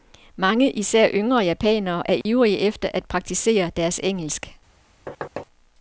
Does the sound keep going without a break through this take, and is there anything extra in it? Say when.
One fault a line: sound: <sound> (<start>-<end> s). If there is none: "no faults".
sound: dropout (2.2-2.3 s)
sound: thud (5.1-5.5 s)